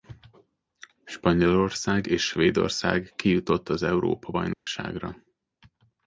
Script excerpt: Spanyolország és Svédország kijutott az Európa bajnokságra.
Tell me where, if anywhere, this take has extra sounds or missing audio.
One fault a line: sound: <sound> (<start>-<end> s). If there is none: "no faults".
sound: dropout (4.5-4.7 s)